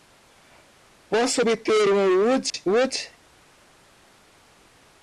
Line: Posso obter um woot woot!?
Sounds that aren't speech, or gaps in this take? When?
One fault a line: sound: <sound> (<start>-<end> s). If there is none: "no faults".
sound: dropout (2.5-2.5 s)